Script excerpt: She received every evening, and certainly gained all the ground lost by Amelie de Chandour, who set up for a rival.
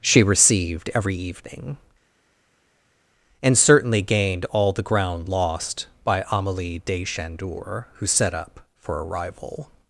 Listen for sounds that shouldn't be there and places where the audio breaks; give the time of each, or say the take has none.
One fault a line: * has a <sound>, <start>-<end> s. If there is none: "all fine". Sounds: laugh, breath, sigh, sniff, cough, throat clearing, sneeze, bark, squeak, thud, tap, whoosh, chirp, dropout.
all fine